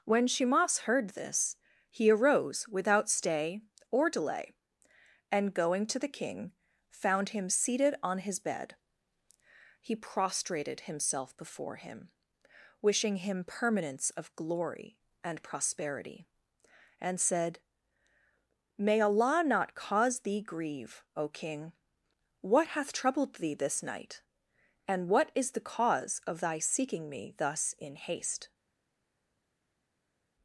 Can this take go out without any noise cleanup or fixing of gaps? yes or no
yes